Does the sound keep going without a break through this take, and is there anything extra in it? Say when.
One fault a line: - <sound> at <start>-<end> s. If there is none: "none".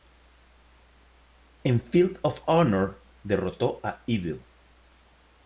none